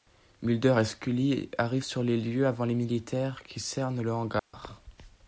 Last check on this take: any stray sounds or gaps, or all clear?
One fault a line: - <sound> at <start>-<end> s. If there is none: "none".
- dropout at 4.4-4.5 s